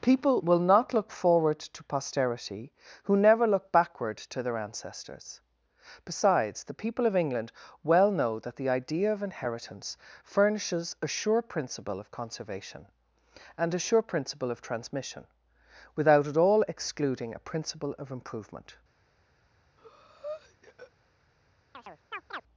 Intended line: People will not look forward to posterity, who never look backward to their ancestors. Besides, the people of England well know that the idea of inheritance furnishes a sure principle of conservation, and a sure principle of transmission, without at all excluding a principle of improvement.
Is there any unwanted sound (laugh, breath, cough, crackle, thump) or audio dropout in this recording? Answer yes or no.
yes